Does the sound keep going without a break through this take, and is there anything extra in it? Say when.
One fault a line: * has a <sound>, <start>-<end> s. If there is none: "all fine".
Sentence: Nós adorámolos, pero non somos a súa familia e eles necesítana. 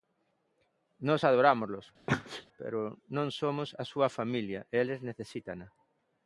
* has a sneeze, 2.1-2.5 s